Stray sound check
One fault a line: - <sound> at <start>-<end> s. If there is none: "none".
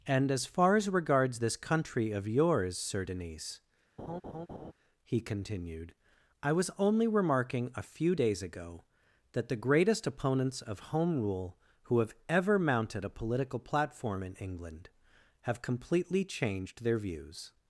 - laugh at 4.0-4.7 s